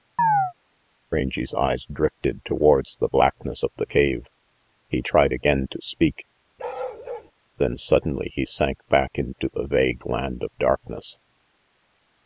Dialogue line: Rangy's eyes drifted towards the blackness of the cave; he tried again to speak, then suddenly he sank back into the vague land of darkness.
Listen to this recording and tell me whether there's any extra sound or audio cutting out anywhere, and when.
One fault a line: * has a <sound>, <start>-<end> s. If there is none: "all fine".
* has a chirp, 0.2-0.5 s
* has a bark, 6.6-7.3 s